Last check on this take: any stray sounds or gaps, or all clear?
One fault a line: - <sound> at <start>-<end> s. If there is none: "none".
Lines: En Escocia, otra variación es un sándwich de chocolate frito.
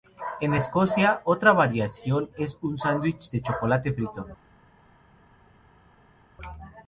none